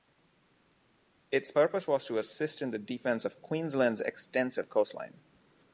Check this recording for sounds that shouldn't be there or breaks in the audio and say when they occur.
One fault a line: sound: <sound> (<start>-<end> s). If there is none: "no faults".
no faults